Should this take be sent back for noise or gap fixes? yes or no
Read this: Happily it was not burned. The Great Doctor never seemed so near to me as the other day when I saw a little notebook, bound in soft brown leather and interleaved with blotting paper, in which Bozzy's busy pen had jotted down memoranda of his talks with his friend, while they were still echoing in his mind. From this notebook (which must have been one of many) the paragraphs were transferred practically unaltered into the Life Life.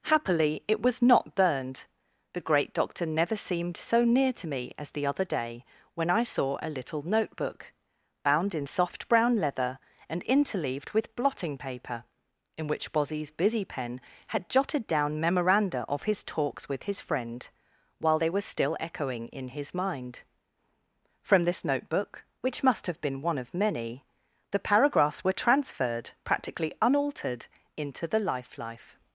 no